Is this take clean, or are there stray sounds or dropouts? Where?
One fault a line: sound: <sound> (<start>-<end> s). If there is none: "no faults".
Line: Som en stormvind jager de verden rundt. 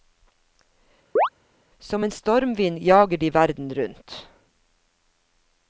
sound: chirp (1.2-1.3 s)